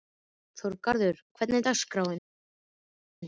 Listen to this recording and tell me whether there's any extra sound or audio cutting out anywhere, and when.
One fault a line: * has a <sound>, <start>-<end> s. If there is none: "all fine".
all fine